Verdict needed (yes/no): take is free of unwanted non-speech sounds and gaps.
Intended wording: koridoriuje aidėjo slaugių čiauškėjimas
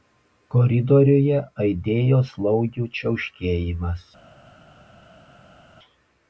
yes